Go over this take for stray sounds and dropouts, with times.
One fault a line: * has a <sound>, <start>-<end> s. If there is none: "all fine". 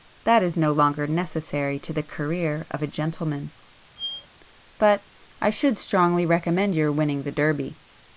* has a squeak, 4.0-4.3 s